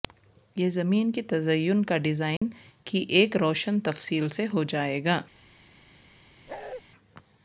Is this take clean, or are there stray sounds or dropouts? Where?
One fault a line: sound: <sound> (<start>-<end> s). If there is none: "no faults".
sound: dropout (2.4-2.4 s)
sound: bark (6.5-6.8 s)